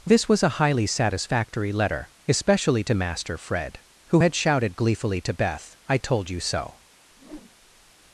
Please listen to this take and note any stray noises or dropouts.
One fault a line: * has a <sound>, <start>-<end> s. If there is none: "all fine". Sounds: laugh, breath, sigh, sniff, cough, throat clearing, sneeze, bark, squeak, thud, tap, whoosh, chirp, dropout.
* has a whoosh, 7.1-7.9 s